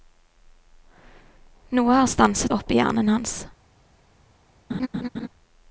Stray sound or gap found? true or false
true